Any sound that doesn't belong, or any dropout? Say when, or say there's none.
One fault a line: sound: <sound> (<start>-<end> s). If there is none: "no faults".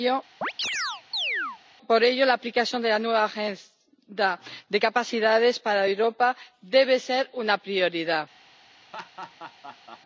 sound: chirp (0.4-1.6 s)
sound: laugh (8.9-10.0 s)